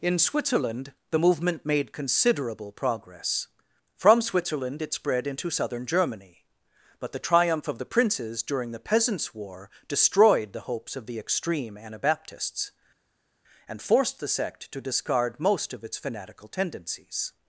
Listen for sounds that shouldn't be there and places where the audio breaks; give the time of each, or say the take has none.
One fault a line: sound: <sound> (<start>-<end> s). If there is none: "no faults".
no faults